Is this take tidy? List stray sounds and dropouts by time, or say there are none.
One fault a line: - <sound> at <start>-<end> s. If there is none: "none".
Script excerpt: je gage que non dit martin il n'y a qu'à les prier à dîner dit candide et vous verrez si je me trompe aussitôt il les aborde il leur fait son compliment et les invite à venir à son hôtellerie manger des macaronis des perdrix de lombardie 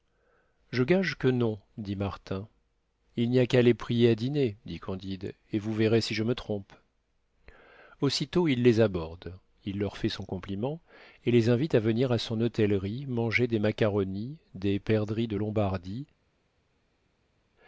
none